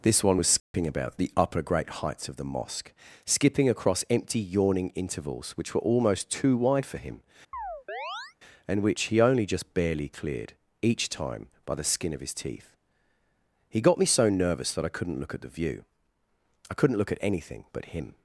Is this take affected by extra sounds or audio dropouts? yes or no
yes